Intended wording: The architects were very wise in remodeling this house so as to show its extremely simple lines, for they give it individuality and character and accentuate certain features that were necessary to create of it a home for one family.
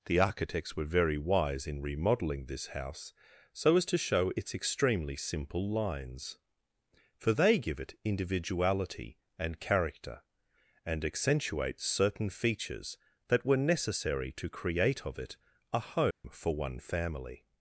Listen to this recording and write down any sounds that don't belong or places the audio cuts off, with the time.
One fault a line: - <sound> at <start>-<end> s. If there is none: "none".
- dropout at 16.1-16.2 s